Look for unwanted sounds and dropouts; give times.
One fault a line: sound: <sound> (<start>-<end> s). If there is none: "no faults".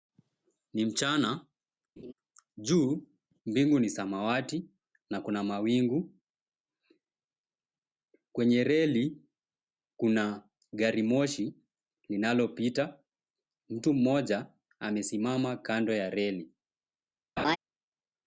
sound: laugh (2.0-2.1 s)
sound: laugh (17.4-17.6 s)